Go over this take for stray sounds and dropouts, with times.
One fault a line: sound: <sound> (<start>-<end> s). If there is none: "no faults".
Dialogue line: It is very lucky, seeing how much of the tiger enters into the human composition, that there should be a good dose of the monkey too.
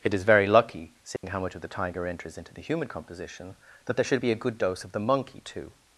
sound: dropout (1.2-1.2 s)